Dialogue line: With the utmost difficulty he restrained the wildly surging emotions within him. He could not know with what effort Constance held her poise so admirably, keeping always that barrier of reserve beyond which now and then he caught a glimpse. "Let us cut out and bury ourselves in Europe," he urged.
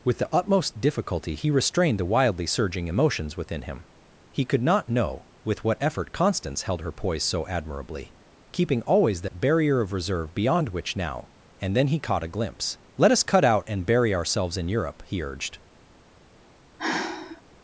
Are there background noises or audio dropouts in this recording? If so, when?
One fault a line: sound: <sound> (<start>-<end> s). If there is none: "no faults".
sound: dropout (9.3-9.3 s)
sound: sigh (16.8-17.4 s)